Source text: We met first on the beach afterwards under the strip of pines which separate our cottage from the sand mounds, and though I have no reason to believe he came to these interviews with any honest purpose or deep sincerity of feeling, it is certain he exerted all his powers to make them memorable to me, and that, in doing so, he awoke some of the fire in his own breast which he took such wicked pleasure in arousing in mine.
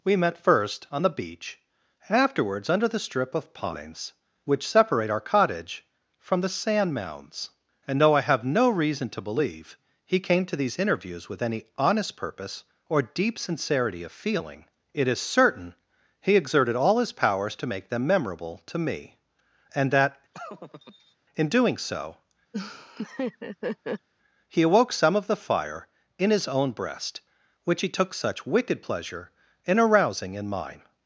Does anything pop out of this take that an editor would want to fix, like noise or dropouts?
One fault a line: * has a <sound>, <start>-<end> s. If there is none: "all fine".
* has a laugh, 20.3-21.2 s
* has a laugh, 22.5-24.1 s